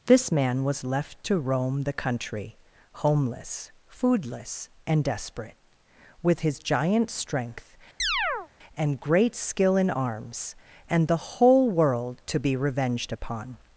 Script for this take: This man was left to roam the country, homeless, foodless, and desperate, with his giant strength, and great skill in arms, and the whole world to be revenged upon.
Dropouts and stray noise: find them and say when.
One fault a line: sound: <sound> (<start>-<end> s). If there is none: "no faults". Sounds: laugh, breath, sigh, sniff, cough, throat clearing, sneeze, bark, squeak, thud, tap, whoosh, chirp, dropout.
sound: chirp (8.0-8.5 s)